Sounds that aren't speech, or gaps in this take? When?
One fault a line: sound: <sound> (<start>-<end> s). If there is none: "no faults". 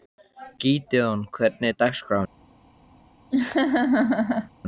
sound: laugh (3.3-4.5 s)